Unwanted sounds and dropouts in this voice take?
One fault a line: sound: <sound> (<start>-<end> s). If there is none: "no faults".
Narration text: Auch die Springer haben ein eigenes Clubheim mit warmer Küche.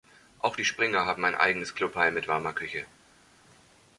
no faults